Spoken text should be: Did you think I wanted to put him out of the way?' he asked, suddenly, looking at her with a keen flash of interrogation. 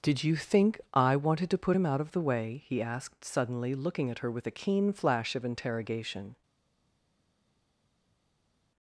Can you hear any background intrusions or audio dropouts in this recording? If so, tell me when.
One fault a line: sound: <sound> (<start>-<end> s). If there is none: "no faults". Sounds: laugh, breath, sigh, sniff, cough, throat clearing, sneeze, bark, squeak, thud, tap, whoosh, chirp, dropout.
no faults